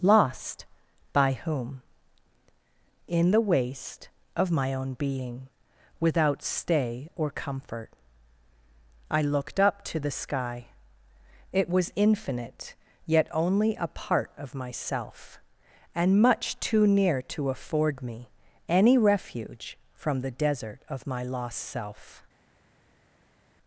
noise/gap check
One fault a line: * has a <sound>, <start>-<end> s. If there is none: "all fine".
all fine